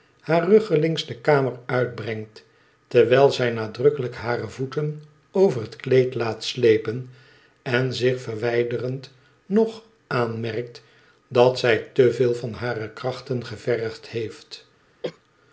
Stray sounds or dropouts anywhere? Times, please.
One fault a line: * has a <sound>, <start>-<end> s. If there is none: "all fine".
* has a cough, 15.0-15.2 s